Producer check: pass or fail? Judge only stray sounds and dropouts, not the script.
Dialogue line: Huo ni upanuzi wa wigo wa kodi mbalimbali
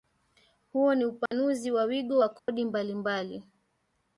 fail